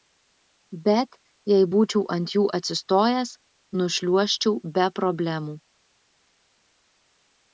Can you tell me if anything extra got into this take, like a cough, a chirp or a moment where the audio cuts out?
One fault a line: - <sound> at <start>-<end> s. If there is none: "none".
none